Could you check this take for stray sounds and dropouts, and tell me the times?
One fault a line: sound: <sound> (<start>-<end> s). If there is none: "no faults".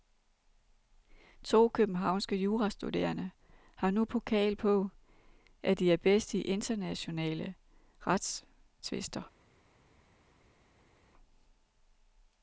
no faults